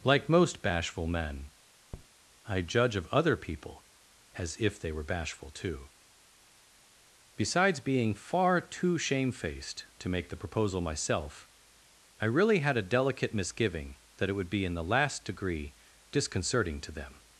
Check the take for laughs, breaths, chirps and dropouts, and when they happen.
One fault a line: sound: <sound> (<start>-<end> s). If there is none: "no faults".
sound: tap (1.9-2.1 s)